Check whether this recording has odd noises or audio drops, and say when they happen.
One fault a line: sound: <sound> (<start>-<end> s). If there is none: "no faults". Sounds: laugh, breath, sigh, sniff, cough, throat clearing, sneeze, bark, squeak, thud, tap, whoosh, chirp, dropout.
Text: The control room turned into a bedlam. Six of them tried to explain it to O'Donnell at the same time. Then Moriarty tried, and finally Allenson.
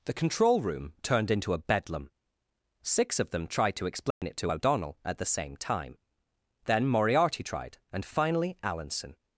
sound: dropout (4.1-4.2 s)